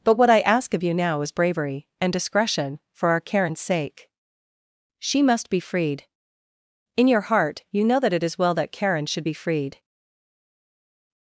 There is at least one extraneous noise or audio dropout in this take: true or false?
false